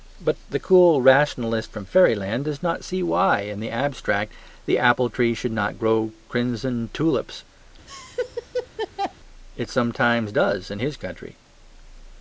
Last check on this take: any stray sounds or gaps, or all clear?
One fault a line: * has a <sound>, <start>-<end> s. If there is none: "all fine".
* has a laugh, 7.9-9.1 s